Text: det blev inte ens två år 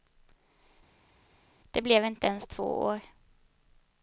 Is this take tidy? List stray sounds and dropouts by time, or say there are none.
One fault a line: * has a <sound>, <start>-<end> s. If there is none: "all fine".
all fine